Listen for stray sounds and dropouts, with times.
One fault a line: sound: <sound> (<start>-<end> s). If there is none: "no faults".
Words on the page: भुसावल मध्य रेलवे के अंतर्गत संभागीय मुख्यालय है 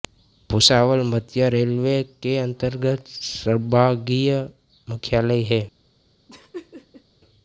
sound: laugh (6.3-7.0 s)